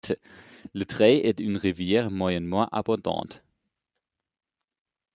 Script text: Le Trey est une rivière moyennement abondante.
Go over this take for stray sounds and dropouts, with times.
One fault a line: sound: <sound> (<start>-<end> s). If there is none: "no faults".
no faults